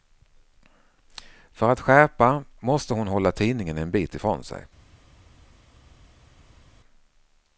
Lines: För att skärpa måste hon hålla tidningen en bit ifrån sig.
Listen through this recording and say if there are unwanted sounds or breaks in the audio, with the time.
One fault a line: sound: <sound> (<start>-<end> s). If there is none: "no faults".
no faults